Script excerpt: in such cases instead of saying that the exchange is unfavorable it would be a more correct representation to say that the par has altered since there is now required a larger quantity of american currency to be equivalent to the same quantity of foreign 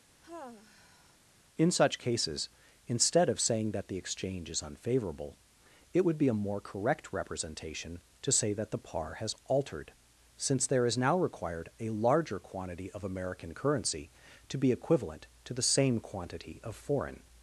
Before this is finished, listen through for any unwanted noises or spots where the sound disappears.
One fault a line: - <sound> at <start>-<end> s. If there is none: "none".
- sigh at 0.2-1.2 s